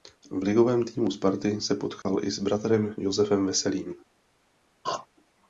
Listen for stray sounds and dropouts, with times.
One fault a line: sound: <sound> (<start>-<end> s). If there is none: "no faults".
sound: dropout (2.0-2.1 s)
sound: throat clearing (4.8-5.1 s)